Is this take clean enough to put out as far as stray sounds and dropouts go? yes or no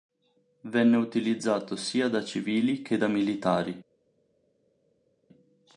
yes